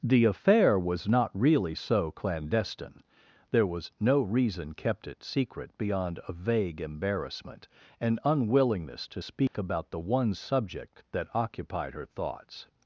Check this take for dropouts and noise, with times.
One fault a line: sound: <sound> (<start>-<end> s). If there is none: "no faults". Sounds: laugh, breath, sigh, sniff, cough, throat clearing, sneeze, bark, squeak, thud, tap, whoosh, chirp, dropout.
sound: dropout (9.5-9.5 s)